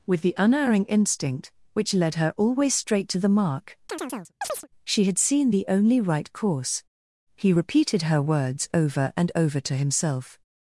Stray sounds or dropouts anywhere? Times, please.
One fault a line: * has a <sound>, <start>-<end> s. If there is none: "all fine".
* has a chirp, 3.9-4.7 s